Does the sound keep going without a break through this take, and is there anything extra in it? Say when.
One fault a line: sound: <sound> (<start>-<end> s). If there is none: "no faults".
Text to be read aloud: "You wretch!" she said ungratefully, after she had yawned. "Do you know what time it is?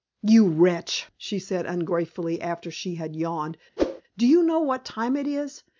sound: whoosh (3.8-4.0 s)